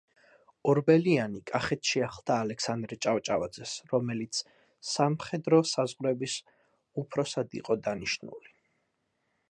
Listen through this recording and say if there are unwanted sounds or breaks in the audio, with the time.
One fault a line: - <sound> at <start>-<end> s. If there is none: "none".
none